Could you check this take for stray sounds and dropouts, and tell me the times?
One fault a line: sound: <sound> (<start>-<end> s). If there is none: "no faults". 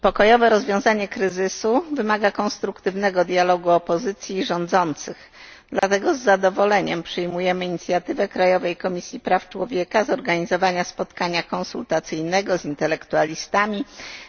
sound: dropout (5.8-5.8 s)